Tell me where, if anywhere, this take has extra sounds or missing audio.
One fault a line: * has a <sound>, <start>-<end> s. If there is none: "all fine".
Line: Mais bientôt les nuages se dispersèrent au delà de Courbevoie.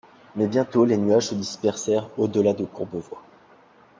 all fine